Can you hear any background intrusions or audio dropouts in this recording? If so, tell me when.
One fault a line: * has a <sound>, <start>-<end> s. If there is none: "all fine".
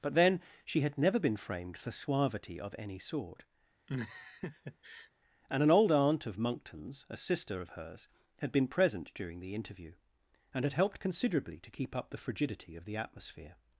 * has a laugh, 3.9-5.1 s